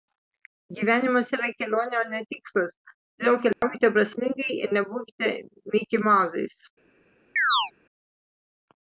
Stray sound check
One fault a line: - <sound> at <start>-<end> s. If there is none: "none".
- dropout at 3.5-3.6 s
- chirp at 7.4-7.7 s